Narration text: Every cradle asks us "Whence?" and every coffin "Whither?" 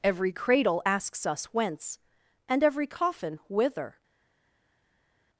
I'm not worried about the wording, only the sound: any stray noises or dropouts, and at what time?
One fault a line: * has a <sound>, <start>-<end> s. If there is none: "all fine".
all fine